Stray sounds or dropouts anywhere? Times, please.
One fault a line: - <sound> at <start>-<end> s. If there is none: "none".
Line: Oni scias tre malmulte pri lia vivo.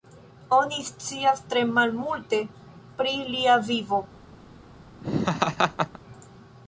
- laugh at 5.0-6.0 s